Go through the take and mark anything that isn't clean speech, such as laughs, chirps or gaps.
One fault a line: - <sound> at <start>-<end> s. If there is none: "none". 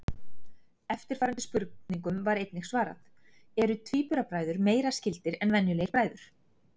none